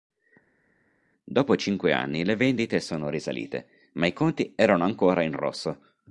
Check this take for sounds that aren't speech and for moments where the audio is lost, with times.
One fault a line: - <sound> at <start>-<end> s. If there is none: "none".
none